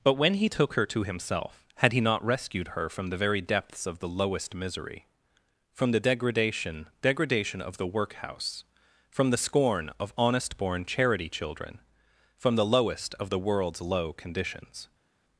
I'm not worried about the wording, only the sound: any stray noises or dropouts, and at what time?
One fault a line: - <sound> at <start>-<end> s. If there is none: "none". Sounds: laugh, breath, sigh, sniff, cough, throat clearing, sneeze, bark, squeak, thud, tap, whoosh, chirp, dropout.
none